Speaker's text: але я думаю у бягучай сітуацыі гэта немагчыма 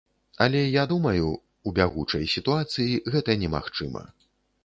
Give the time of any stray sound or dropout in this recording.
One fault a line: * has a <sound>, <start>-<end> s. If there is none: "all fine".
all fine